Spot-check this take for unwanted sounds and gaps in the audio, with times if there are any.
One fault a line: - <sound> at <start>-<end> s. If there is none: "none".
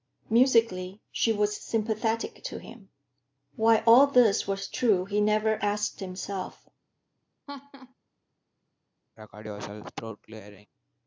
- laugh at 7.5-7.9 s
- throat clearing at 9.2-10.7 s